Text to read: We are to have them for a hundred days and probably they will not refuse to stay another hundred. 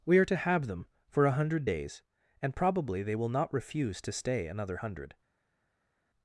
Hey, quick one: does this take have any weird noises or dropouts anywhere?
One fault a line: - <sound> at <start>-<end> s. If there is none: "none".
none